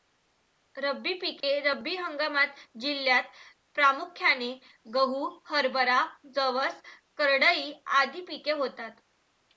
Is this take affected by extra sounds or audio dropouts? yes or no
yes